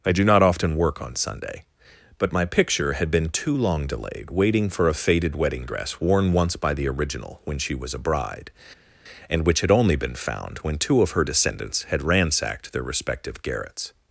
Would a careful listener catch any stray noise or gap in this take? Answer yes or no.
no